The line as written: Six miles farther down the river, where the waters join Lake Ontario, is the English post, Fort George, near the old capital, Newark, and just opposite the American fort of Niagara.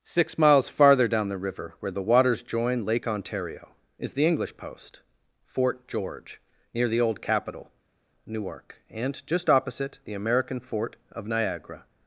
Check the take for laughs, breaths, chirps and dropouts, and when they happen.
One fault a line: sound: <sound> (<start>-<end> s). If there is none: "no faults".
no faults